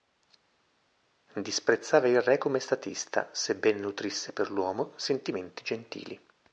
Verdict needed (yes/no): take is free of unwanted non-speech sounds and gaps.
yes